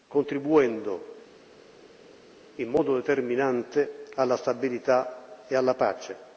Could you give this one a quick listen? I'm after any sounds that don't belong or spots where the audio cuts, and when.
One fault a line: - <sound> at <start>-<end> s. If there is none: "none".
none